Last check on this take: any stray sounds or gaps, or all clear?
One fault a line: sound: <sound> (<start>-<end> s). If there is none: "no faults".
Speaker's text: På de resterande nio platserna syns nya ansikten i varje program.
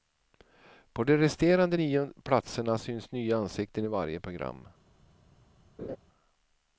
sound: laugh (5.8-6.0 s)